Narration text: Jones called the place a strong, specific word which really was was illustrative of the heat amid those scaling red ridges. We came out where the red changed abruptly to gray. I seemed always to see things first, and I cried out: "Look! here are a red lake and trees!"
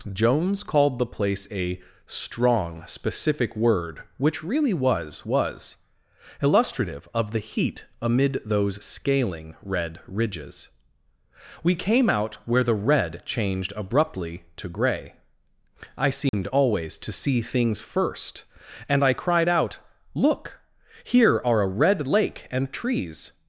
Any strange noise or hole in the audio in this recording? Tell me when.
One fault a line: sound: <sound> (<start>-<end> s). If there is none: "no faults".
sound: dropout (16.3-16.3 s)